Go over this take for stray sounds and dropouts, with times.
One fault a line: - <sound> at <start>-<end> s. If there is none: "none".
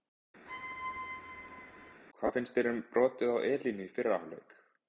- squeak at 0.5-2.0 s